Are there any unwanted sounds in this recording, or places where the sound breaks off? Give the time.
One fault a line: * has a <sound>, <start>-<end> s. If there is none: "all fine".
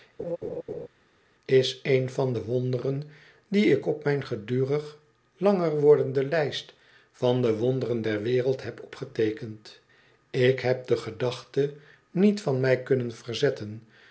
* has a laugh, 0.2-0.9 s